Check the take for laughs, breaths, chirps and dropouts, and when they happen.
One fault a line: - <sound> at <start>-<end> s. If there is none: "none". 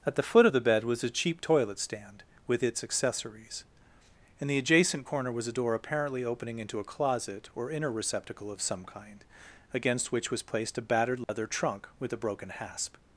- dropout at 11.2-11.3 s